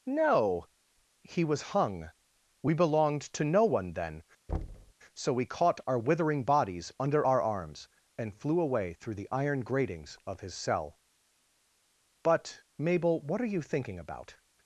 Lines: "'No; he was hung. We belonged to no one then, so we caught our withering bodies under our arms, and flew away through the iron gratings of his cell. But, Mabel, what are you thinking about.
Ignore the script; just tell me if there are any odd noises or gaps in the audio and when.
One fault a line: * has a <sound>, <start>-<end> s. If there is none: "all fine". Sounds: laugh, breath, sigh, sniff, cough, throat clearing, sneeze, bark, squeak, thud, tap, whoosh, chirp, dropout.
* has a thud, 4.5-4.9 s